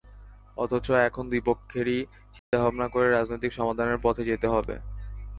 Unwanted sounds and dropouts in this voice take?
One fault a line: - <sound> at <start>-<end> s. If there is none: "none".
- dropout at 2.4-2.5 s